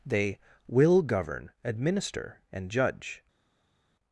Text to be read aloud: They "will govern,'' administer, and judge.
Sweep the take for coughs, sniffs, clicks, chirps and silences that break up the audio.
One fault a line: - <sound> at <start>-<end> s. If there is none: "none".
none